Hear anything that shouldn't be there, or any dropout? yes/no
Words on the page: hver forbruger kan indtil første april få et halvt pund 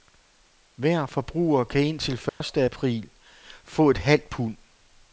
yes